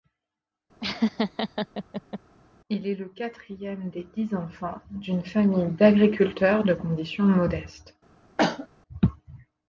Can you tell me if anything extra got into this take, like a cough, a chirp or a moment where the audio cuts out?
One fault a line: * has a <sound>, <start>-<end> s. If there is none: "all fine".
* has a laugh, 0.8-2.2 s
* has a cough, 8.4-8.7 s